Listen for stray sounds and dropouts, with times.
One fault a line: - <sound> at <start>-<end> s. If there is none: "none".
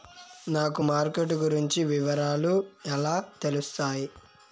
none